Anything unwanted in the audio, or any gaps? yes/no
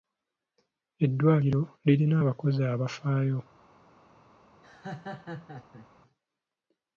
yes